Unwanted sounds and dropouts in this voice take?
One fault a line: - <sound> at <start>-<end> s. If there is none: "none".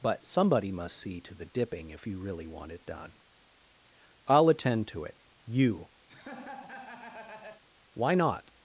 - laugh at 6.1-7.6 s